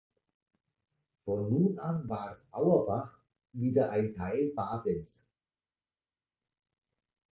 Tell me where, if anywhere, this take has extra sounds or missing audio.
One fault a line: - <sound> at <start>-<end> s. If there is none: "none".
none